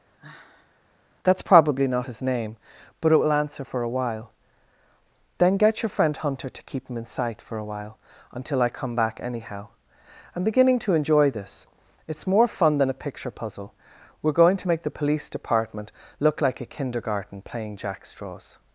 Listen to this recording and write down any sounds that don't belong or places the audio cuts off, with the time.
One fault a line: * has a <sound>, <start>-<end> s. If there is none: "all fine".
* has a sigh, 0.2-0.8 s